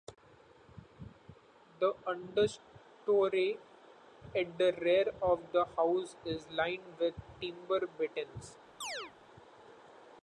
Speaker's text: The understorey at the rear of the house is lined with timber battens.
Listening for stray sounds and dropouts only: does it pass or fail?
fail